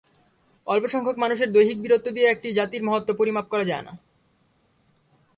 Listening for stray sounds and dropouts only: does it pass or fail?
pass